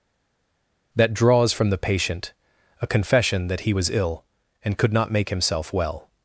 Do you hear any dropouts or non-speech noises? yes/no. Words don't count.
no